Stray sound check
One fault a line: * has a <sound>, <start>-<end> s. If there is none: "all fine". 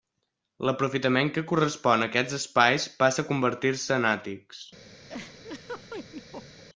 * has a laugh, 5.1-6.6 s